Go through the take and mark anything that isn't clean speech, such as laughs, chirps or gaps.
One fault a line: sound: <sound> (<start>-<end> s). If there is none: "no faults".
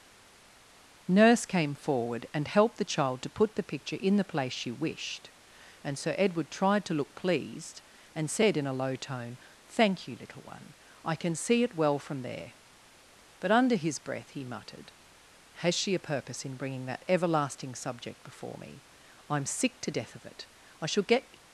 no faults